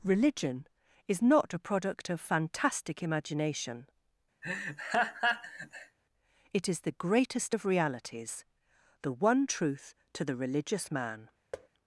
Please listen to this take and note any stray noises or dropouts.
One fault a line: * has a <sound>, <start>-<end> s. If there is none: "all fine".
* has a laugh, 4.4-6.0 s
* has a thud, 11.5-11.7 s